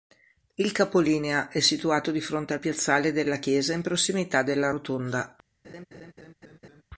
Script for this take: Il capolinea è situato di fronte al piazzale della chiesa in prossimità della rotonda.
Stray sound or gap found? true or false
true